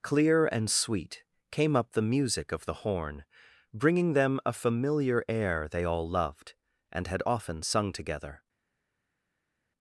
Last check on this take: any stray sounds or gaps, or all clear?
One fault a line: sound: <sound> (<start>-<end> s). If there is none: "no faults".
no faults